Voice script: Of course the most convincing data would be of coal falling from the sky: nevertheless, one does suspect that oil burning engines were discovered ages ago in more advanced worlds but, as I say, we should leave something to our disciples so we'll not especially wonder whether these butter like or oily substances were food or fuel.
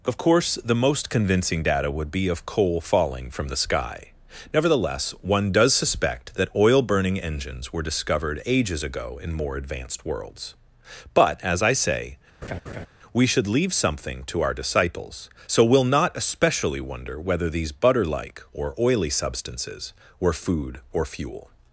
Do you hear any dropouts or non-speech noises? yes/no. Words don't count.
yes